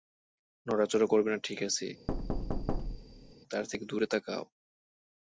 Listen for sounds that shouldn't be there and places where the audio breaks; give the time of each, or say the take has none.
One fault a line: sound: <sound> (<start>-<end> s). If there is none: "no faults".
sound: thud (2.1-3.3 s)